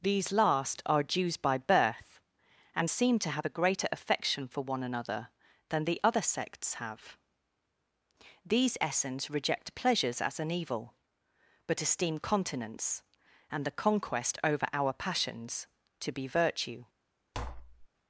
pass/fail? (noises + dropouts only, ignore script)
fail